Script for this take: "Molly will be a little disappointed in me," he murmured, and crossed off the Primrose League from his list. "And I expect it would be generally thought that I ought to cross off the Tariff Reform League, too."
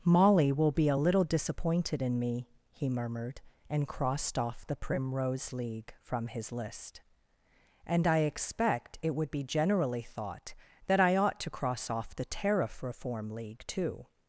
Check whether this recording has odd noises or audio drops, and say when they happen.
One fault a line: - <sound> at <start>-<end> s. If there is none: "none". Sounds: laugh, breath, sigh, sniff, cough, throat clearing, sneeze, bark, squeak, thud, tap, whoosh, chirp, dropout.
none